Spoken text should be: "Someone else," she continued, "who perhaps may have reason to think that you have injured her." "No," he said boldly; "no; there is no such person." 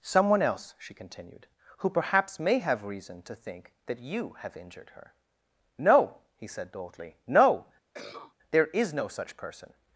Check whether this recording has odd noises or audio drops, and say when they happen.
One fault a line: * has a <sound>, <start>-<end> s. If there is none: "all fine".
* has a cough, 7.9-8.3 s